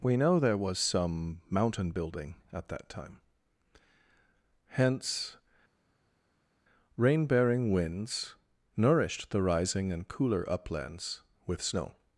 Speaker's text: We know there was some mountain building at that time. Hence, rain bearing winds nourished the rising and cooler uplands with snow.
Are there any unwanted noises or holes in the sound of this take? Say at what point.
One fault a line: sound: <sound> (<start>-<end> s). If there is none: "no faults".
no faults